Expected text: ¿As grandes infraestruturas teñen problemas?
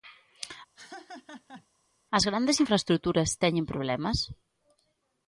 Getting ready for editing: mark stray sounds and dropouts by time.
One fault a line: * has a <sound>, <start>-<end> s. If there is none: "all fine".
* has a laugh, 0.8-1.7 s